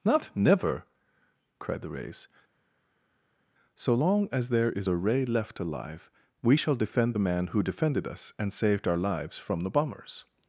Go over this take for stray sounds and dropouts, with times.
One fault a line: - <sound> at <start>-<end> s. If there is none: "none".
none